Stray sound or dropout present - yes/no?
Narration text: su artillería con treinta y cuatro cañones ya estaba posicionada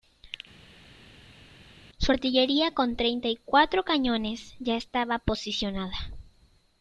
no